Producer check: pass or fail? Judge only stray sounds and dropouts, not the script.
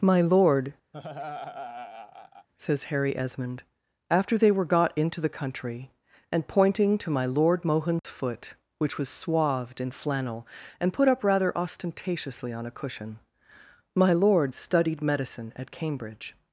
fail